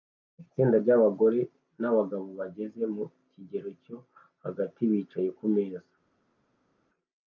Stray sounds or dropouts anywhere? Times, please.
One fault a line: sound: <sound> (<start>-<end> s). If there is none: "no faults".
no faults